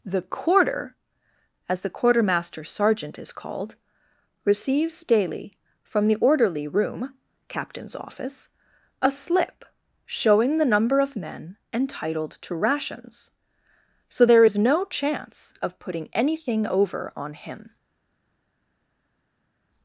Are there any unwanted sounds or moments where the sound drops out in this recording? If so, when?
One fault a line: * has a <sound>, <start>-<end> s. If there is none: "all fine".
all fine